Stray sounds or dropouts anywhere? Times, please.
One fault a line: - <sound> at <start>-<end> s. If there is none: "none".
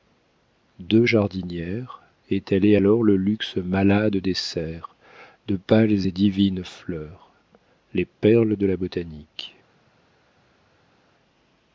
none